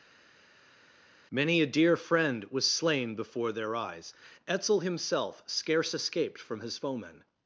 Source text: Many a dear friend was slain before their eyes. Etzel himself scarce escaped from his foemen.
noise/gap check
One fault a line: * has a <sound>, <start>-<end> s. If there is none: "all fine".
all fine